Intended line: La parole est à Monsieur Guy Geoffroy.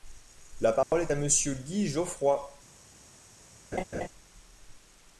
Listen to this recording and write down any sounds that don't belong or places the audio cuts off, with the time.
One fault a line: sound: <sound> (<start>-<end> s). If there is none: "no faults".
sound: dropout (0.8-0.9 s)
sound: laugh (3.7-4.1 s)